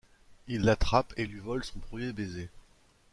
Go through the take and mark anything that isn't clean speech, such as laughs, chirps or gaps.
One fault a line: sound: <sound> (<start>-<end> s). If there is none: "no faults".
no faults